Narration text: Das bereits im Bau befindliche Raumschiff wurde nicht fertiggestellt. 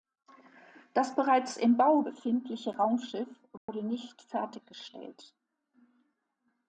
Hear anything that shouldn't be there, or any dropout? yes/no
yes